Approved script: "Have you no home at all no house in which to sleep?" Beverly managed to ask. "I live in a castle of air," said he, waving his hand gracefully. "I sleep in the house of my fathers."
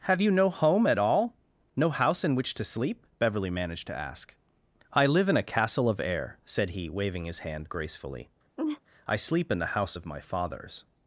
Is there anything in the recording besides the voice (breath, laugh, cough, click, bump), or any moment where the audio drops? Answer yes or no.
yes